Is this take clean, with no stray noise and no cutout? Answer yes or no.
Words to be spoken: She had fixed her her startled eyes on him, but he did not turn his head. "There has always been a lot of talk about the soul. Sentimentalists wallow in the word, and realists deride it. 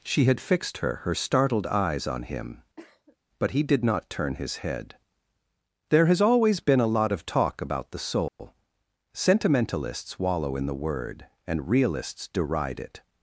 no